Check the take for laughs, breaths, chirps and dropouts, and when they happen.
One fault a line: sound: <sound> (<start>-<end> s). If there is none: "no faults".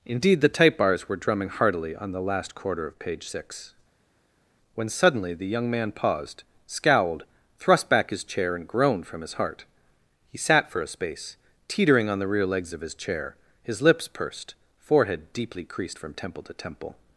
no faults